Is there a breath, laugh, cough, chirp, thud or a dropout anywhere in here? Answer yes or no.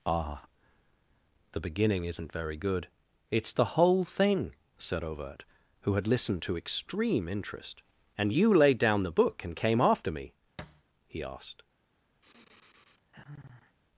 yes